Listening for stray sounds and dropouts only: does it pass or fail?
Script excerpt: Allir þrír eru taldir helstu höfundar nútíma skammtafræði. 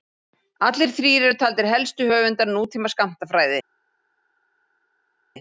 pass